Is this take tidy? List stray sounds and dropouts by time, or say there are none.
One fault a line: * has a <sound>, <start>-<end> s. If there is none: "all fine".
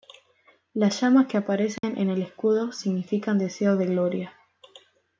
* has a dropout, 1.8-1.8 s